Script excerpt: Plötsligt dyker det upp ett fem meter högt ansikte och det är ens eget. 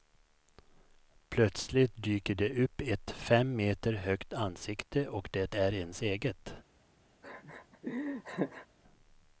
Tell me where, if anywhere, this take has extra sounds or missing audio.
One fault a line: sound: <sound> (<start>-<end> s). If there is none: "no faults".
sound: laugh (7.2-8.7 s)